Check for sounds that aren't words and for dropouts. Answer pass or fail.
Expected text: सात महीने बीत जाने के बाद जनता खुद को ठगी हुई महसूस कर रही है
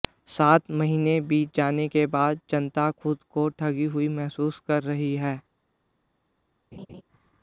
fail